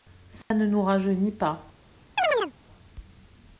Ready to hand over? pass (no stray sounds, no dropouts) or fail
fail